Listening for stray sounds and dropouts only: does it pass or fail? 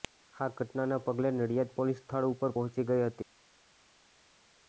pass